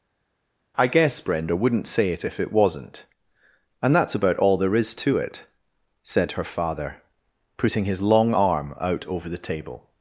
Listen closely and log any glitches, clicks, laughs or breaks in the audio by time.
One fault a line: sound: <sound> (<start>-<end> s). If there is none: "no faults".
no faults